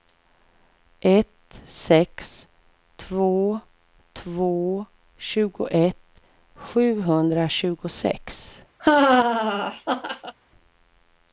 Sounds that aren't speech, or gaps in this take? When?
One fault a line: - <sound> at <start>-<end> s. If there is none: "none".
- laugh at 8.8-10.3 s